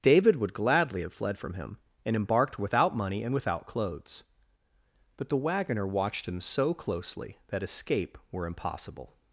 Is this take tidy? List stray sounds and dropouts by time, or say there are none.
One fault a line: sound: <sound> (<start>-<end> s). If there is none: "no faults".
no faults